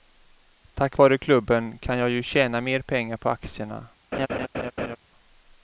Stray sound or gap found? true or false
true